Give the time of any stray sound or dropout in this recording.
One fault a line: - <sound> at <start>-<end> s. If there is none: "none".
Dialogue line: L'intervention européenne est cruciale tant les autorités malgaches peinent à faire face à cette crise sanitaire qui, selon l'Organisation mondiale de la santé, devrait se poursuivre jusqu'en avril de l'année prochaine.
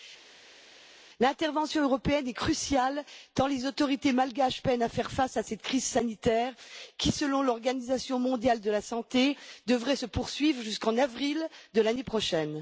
none